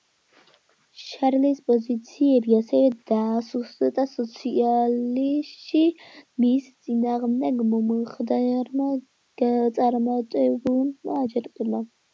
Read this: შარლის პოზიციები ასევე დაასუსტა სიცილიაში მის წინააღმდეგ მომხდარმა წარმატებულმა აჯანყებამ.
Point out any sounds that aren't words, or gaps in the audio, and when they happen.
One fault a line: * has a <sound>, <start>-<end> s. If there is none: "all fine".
all fine